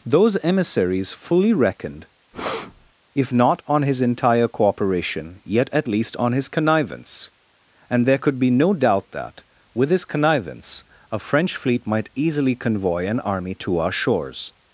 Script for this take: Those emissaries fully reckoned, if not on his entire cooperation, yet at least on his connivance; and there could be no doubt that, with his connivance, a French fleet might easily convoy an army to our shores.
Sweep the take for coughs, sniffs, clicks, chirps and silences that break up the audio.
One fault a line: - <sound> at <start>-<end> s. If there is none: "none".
- breath at 2.3-2.9 s